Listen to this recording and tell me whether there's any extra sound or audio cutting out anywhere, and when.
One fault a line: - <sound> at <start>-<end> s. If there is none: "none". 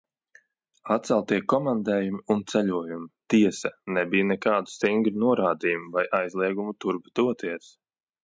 none